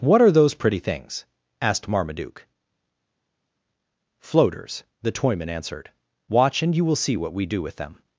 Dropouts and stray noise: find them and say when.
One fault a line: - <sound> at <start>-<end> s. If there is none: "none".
none